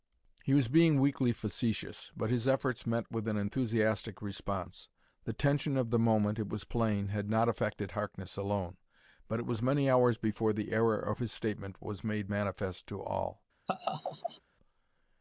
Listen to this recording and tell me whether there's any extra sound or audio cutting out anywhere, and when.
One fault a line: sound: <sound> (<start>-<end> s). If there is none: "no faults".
sound: laugh (13.7-14.4 s)